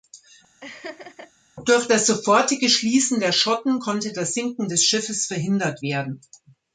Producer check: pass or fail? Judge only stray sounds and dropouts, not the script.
fail